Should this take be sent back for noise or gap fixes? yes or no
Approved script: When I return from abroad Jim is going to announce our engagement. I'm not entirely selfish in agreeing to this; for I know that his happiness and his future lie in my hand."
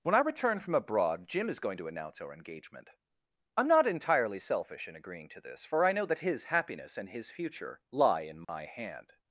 yes